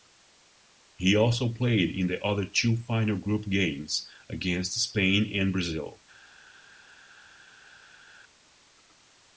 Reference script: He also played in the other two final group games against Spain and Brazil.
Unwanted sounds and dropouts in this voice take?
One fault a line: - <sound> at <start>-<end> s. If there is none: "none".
none